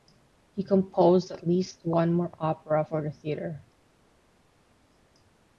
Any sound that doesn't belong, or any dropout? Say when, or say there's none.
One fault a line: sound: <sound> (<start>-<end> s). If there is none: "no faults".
no faults